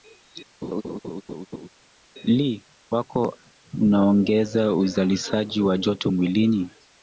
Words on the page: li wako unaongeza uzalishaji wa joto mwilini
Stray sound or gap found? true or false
true